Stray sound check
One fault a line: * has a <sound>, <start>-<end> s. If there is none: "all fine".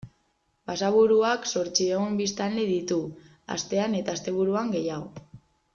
all fine